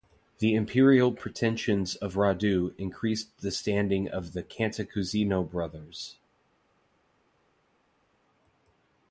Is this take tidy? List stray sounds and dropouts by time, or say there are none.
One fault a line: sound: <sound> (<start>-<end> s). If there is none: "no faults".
no faults